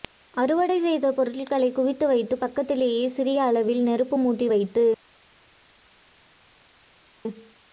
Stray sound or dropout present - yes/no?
no